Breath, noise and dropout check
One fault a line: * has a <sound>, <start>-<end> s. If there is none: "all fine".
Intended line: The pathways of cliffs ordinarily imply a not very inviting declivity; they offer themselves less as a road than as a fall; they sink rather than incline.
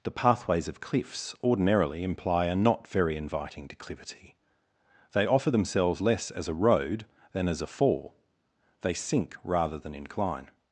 all fine